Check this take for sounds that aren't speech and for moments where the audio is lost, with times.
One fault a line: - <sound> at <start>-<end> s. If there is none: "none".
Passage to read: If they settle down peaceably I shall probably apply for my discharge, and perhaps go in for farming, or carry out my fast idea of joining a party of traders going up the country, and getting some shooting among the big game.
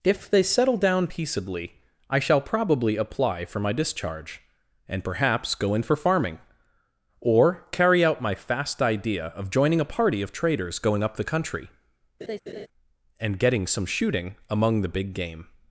- laugh at 12.2-12.7 s